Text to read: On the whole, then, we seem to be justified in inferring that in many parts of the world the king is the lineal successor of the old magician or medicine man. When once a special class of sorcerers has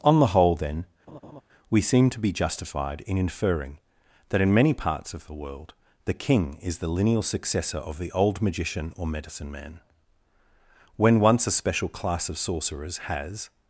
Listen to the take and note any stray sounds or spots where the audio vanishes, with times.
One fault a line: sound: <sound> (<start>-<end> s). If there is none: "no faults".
sound: laugh (1.1-1.4 s)